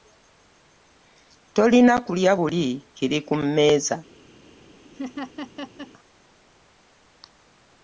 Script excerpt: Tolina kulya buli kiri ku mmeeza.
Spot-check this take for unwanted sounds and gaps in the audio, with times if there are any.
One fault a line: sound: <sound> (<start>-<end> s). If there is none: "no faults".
sound: laugh (4.9-5.9 s)